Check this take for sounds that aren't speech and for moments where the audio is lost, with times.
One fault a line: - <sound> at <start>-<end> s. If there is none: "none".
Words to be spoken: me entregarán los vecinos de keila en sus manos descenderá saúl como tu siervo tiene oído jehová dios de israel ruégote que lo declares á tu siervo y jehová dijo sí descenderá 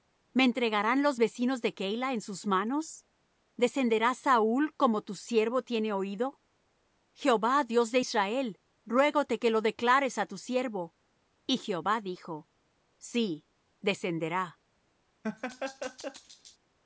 - laugh at 15.2-16.6 s